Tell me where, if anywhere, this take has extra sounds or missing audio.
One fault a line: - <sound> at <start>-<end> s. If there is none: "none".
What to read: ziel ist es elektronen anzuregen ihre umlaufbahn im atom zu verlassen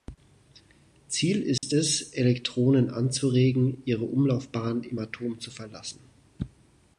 - dropout at 1.6-1.6 s